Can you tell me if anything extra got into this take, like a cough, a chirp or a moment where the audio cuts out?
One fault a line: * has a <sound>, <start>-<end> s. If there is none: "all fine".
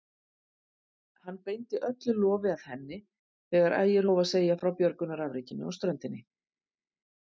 all fine